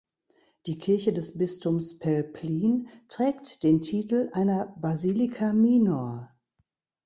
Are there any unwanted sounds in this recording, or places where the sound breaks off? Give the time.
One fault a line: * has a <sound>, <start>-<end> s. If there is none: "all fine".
all fine